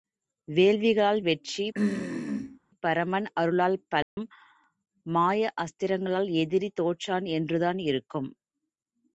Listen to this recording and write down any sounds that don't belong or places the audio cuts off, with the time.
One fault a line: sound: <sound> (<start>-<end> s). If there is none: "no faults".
sound: throat clearing (1.7-2.6 s)
sound: dropout (4.0-4.2 s)